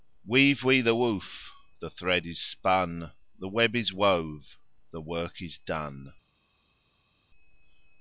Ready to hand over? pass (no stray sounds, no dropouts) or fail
pass